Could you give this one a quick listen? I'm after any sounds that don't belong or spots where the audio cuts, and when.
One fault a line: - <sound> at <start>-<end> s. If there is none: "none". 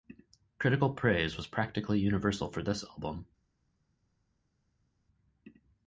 none